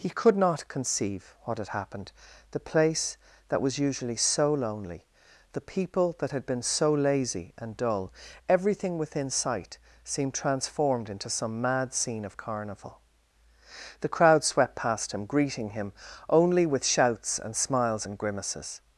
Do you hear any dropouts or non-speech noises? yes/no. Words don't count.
no